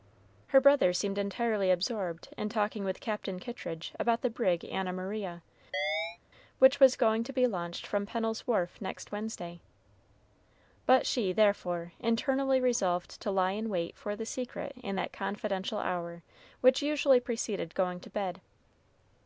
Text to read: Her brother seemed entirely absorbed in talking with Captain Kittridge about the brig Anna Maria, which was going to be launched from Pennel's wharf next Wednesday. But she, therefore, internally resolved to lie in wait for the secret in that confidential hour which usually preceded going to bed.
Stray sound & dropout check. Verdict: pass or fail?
fail